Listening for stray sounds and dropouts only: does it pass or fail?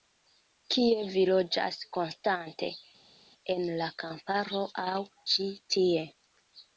pass